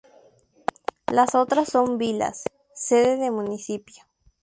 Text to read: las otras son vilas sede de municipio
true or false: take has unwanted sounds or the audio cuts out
false